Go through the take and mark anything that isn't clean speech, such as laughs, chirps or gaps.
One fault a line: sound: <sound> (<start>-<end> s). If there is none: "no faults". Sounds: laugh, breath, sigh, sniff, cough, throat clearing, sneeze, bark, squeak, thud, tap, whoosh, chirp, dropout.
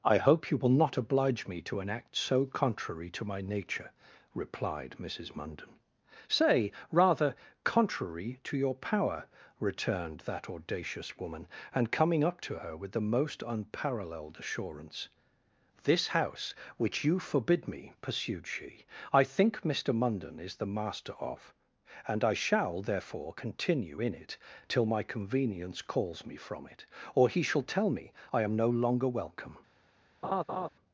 sound: laugh (30.2-30.7 s)